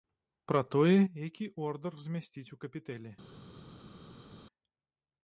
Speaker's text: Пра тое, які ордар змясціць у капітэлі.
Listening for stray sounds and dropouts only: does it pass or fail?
pass